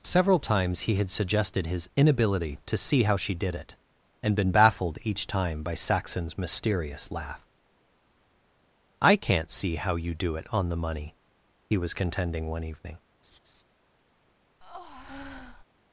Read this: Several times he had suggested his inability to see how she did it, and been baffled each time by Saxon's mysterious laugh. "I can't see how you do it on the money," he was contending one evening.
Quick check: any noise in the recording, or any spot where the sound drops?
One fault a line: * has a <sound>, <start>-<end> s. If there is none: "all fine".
* has a laugh, 13.2-13.6 s
* has a breath, 14.6-15.6 s